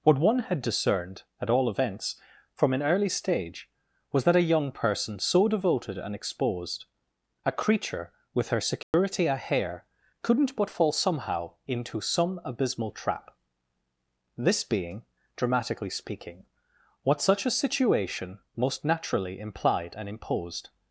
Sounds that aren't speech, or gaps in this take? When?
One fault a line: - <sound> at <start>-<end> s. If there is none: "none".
- dropout at 8.8-8.9 s